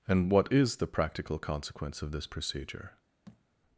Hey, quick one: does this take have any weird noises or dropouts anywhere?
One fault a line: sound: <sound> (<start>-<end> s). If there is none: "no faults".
sound: thud (3.3-3.4 s)